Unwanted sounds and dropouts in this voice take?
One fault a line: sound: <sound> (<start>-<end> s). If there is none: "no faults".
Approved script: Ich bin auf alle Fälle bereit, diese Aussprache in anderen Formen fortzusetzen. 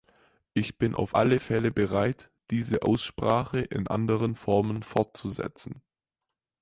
no faults